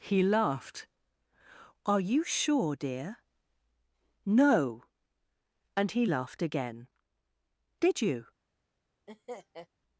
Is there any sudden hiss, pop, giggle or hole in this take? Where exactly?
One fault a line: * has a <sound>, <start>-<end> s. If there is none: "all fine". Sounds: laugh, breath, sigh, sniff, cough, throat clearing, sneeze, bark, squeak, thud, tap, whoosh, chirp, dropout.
* has a laugh, 9.1-9.7 s